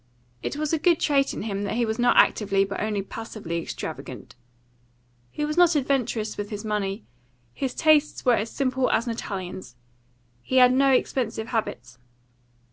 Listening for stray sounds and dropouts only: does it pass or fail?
pass